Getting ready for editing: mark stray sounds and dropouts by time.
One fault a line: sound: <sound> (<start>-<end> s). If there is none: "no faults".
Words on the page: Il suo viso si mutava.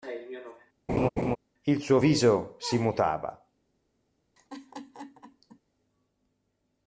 sound: laugh (0.9-1.4 s)
sound: laugh (4.4-5.6 s)